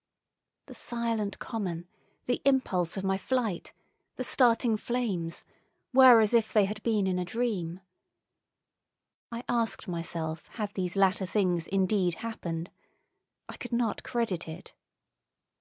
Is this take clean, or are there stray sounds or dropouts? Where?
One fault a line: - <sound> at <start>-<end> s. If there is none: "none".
none